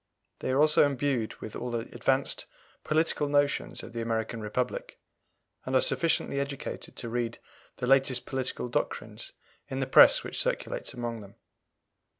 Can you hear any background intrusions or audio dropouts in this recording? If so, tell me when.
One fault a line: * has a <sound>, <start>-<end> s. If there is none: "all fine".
all fine